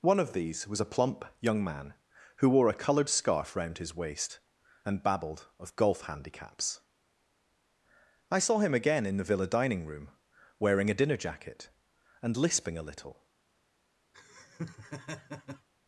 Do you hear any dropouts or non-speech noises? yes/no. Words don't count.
yes